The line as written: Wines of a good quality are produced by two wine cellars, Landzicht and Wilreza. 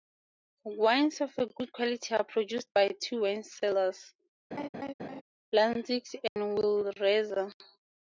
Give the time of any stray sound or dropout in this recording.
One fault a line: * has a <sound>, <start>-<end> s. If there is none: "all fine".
* has a laugh, 4.5-5.2 s
* has a dropout, 6.3-6.4 s